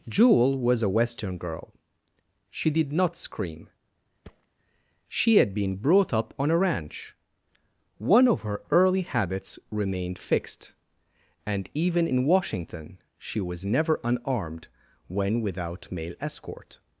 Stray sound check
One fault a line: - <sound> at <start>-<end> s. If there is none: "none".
- thud at 4.2-4.5 s